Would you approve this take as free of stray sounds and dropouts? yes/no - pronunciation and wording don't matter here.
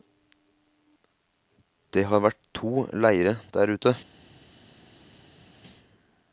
yes